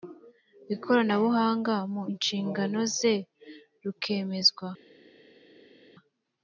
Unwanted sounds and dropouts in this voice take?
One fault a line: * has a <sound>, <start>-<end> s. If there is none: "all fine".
all fine